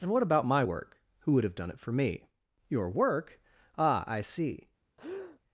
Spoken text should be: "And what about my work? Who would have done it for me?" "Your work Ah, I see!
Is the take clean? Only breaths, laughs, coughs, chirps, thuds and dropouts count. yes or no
no